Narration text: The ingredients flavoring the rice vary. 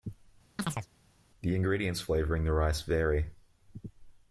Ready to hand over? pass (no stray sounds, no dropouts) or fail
fail